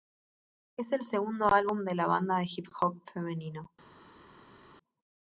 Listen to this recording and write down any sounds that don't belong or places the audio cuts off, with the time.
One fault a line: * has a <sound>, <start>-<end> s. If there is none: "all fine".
all fine